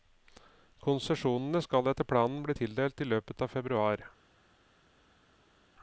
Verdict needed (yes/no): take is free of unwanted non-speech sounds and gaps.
yes